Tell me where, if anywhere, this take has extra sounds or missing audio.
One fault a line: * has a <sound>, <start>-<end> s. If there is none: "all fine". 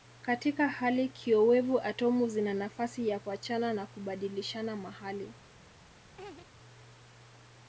* has a laugh, 6.2-6.5 s